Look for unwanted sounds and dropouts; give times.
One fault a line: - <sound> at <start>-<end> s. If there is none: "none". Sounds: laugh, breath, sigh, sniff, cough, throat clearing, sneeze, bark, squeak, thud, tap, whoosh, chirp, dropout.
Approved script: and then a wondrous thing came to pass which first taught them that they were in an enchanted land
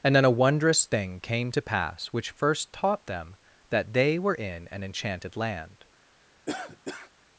- cough at 6.5-7.1 s